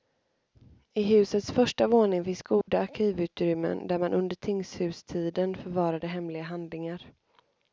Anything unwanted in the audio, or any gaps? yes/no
yes